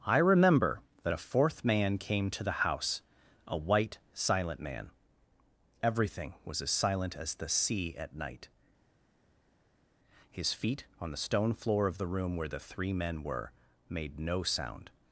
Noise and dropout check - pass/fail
pass